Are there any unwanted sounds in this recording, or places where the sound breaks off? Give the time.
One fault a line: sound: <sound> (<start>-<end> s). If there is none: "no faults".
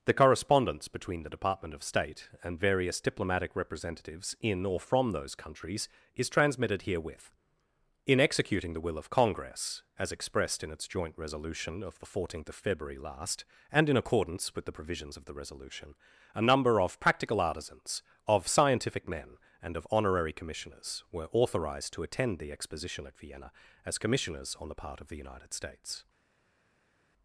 no faults